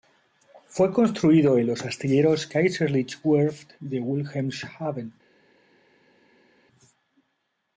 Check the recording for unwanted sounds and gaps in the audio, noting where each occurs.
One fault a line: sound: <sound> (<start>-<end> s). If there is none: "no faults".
no faults